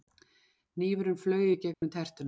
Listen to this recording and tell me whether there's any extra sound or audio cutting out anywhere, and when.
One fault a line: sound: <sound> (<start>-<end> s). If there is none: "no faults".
sound: dropout (1.7-1.8 s)